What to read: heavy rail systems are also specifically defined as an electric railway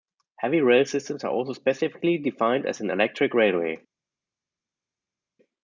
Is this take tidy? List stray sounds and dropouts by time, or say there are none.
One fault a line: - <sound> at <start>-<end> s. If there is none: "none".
none